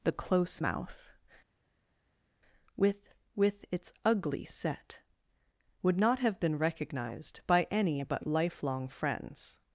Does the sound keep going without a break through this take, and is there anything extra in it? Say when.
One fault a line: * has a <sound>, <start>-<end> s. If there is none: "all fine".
all fine